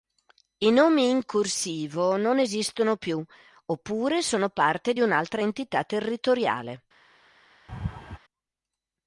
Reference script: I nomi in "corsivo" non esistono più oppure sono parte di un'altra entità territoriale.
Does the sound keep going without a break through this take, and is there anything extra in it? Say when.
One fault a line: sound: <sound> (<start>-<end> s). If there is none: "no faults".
sound: laugh (7.7-8.2 s)